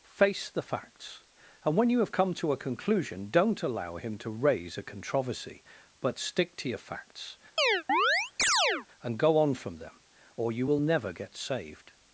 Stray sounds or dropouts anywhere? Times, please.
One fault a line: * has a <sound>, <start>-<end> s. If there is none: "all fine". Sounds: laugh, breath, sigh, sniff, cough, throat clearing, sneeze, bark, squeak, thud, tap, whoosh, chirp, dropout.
* has a chirp, 7.6-8.9 s